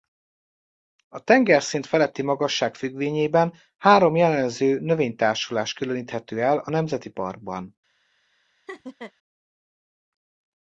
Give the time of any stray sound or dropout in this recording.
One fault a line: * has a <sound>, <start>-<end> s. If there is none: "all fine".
* has a laugh, 8.7-9.1 s